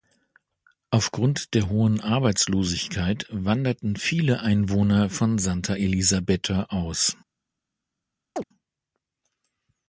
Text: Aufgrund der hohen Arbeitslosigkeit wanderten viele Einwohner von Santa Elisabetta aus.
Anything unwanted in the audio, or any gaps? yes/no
yes